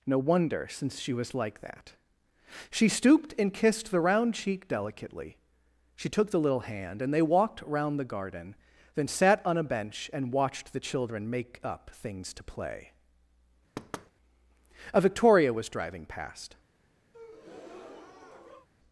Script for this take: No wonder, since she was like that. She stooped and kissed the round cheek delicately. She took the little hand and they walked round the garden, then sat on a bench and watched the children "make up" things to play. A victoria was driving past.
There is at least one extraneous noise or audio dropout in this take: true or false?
true